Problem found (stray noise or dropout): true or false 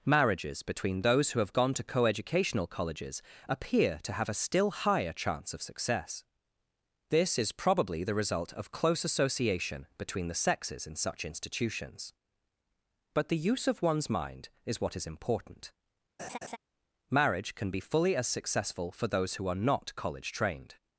true